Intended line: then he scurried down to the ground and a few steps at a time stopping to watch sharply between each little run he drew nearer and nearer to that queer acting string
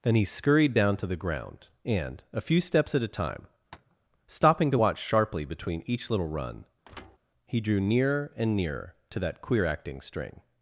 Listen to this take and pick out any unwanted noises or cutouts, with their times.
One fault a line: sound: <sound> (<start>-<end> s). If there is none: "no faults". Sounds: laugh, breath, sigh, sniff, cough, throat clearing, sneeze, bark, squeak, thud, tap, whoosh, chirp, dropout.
sound: tap (3.7-4.0 s)
sound: thud (6.8-7.2 s)